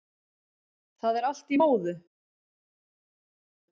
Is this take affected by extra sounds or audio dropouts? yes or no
no